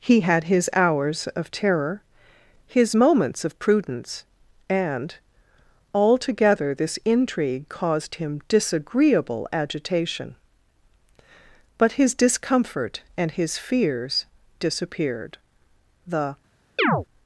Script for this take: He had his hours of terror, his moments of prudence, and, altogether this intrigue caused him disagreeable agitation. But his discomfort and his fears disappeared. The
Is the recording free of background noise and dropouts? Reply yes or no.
no